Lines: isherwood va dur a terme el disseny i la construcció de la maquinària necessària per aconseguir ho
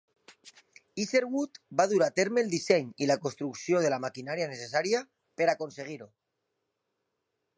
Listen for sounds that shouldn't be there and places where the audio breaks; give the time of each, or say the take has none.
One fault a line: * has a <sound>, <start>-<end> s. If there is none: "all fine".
all fine